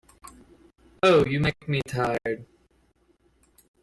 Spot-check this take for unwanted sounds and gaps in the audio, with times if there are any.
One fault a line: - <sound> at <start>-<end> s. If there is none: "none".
none